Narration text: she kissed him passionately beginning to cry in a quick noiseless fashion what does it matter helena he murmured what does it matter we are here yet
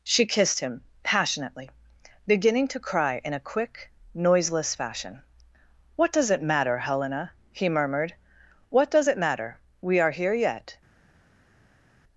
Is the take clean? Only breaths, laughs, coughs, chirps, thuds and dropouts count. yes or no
yes